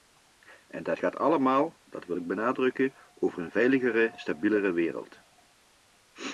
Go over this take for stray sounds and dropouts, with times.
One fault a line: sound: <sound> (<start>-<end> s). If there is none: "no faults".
no faults